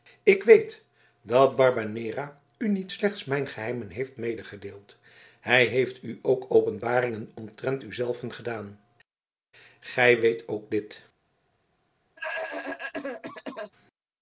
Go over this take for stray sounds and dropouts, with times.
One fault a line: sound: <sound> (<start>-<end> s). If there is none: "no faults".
sound: cough (12.2-13.7 s)